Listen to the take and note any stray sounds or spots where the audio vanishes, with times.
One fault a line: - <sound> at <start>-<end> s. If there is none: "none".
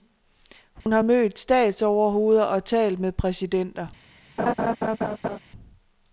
- dropout at 0.8-0.9 s
- laugh at 4.4-5.4 s